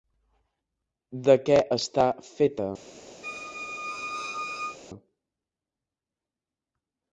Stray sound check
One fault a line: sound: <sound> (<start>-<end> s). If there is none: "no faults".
sound: squeak (3.2-4.8 s)